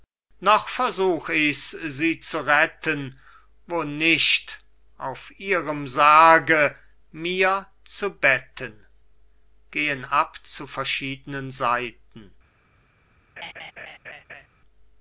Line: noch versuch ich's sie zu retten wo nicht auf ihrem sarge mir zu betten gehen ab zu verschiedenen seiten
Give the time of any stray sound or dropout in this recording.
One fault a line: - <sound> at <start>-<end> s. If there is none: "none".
- laugh at 13.4-14.5 s